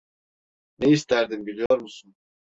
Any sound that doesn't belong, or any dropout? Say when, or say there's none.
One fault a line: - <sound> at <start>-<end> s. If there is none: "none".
- dropout at 1.7-1.7 s